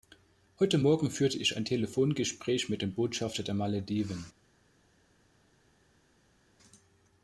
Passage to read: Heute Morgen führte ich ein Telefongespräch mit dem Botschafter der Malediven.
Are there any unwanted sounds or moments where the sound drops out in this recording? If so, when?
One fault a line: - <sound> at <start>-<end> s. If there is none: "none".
none